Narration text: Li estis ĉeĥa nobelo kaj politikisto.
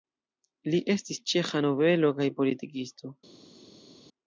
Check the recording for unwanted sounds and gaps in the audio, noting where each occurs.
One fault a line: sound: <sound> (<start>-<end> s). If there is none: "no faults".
no faults